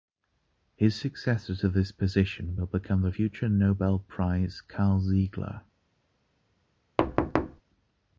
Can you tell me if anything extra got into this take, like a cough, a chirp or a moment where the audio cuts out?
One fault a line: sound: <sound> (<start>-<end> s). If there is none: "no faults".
sound: thud (7.0-7.6 s)